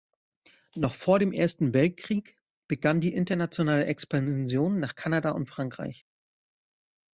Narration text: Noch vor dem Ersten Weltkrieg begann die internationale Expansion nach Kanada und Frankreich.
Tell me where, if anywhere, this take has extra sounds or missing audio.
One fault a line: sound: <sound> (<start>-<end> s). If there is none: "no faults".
no faults